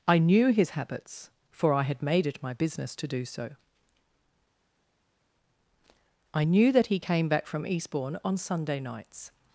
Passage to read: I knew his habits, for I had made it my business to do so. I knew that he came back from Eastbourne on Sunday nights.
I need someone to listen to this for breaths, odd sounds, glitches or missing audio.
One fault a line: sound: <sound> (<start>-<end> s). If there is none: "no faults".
no faults